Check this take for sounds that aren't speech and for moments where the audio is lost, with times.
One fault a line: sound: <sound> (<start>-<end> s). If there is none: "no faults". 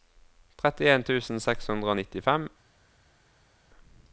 no faults